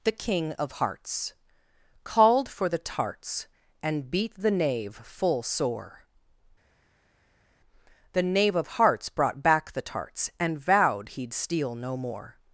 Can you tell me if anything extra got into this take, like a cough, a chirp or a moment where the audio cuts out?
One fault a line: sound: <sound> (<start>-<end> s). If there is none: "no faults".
no faults